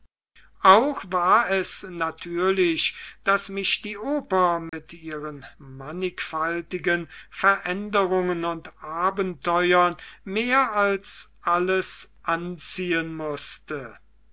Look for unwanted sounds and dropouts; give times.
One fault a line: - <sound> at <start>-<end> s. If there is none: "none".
- dropout at 4.7-4.7 s